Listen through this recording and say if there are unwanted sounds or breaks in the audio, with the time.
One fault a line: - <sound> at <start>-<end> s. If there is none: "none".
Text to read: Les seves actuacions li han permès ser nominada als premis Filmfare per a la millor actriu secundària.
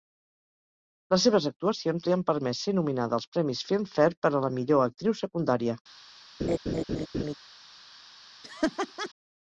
- laugh at 6.4-7.3 s
- laugh at 8.4-9.1 s